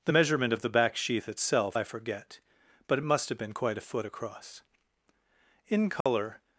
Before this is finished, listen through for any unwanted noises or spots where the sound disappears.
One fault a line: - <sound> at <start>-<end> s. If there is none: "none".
- dropout at 6.0-6.1 s